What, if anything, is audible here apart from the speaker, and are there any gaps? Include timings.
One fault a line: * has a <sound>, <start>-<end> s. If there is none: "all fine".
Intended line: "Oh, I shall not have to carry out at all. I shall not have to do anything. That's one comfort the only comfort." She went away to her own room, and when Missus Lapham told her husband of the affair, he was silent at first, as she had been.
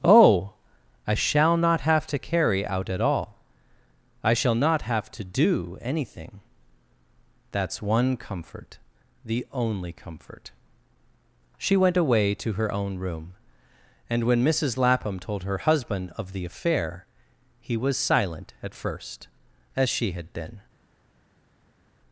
all fine